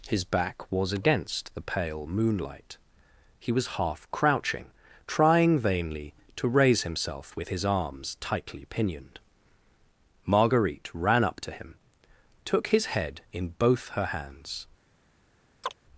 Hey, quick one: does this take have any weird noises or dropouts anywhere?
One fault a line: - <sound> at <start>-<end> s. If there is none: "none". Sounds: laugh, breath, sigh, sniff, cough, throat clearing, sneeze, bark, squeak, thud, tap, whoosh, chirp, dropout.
- chirp at 15.6-15.7 s